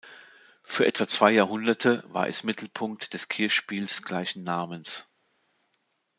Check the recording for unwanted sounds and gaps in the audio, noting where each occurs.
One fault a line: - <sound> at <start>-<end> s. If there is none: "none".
none